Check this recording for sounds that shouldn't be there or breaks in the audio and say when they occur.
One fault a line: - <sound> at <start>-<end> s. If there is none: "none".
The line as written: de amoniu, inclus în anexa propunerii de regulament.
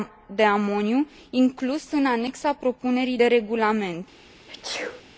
- sneeze at 4.5-5.0 s